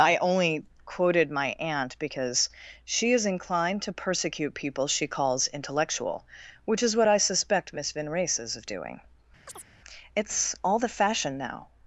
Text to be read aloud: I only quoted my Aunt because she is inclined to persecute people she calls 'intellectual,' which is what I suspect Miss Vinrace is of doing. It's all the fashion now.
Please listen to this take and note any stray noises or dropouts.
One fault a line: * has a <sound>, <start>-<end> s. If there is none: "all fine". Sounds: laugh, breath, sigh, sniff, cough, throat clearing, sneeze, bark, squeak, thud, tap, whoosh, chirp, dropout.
* has a chirp, 9.5-9.7 s